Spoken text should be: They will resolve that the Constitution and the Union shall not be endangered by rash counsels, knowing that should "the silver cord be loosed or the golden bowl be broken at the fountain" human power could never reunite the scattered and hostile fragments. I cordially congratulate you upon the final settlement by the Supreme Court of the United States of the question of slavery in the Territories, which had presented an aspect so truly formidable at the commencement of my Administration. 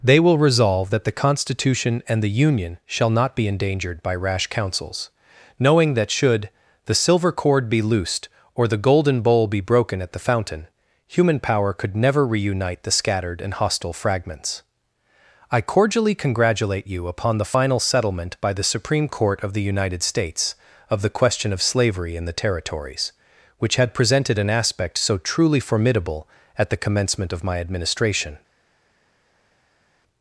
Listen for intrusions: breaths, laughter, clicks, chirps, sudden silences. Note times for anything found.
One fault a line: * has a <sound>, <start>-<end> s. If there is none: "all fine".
all fine